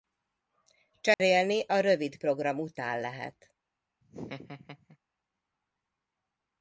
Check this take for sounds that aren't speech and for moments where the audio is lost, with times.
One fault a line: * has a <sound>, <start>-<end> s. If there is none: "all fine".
* has a dropout, 1.1-1.2 s
* has a laugh, 4.0-5.0 s